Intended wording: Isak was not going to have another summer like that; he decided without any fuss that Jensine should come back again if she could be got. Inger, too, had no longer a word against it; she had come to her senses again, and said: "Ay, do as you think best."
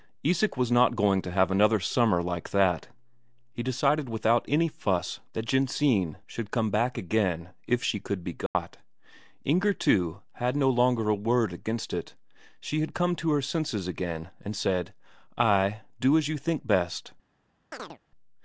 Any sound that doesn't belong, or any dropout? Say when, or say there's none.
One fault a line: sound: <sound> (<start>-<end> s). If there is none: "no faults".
sound: dropout (8.5-8.6 s)
sound: chirp (17.7-18.0 s)